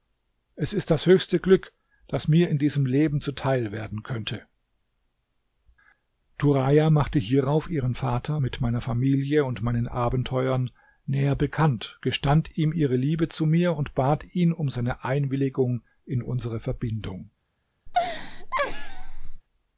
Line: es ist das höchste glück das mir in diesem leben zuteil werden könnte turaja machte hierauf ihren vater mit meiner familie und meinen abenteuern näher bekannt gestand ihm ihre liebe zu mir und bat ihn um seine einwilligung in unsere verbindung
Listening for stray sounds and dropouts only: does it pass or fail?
fail